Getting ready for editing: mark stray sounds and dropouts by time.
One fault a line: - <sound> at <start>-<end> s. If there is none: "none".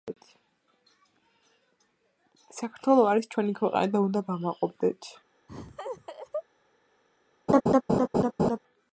- laugh at 5.5-6.4 s
- laugh at 7.5-8.6 s